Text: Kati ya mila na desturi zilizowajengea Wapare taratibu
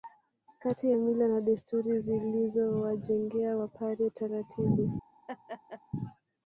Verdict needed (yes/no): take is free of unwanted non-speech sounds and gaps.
no